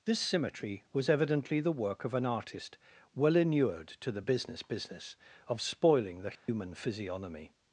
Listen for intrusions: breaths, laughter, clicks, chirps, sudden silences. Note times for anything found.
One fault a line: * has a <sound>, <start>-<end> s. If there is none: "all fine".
* has a dropout, 6.4-6.5 s